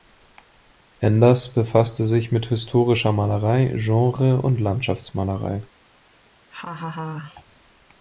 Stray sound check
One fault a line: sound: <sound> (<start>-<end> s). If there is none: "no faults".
sound: laugh (6.5-7.4 s)